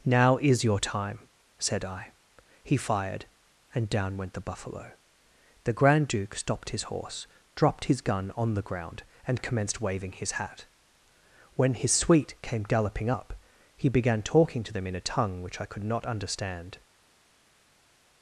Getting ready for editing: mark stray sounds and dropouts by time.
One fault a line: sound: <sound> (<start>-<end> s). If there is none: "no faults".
no faults